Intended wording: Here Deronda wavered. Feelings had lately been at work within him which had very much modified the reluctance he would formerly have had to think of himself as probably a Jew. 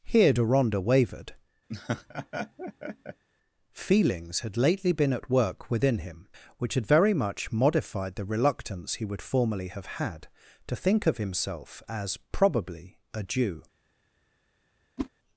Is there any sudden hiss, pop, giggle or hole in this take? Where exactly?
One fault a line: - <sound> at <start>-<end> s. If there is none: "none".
- laugh at 1.7-3.2 s
- whoosh at 15.0-15.1 s